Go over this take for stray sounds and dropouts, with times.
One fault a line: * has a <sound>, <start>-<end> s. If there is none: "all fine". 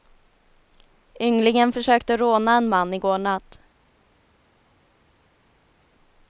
all fine